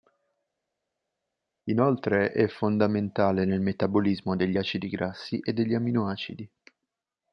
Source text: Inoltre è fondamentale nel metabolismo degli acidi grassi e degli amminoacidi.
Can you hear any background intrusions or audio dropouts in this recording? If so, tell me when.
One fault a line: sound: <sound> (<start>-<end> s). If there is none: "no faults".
no faults